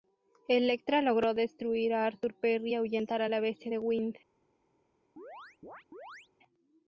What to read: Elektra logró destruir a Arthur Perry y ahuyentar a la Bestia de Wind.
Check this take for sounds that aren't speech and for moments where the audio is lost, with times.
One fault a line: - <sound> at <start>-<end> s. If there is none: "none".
- chirp at 5.2-6.3 s